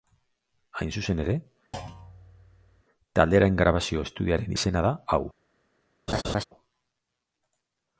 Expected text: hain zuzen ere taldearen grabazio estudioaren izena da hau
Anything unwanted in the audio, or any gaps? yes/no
yes